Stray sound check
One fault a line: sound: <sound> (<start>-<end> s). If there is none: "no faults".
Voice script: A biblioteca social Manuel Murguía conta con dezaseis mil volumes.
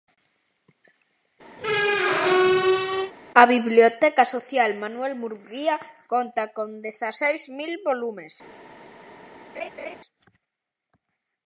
sound: squeak (1.6-3.1 s)
sound: laugh (9.5-10.0 s)